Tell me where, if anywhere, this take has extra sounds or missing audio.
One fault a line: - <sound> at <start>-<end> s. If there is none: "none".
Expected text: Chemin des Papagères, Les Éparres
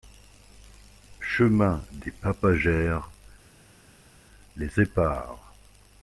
none